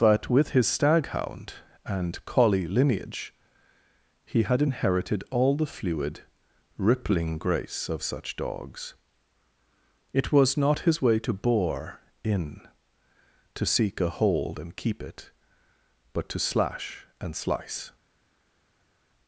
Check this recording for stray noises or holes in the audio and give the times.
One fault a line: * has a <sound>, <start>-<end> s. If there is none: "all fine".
all fine